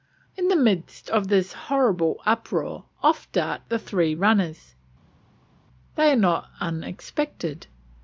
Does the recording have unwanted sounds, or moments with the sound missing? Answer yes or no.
no